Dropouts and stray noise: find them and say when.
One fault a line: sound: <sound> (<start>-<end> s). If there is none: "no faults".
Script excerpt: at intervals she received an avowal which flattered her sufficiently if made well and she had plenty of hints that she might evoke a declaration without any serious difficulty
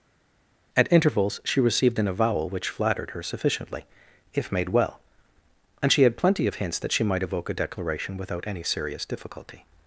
no faults